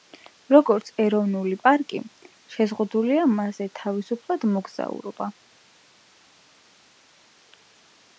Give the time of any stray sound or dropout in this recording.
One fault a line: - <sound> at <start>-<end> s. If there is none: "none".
none